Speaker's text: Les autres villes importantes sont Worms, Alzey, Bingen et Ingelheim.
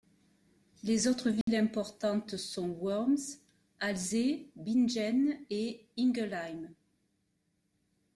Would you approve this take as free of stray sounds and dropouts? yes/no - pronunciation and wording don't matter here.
no